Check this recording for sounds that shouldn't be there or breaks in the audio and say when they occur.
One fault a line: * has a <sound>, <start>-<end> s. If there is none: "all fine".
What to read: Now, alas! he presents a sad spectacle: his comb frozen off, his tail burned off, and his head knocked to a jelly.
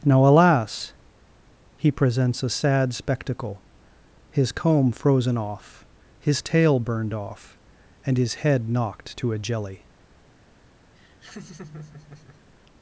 * has a laugh, 11.0-12.5 s